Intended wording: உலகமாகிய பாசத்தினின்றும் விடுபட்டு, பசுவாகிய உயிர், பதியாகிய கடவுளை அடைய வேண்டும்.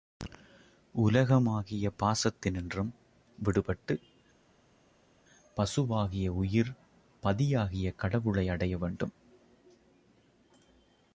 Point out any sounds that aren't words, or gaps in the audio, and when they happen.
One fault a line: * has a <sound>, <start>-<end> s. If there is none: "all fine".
all fine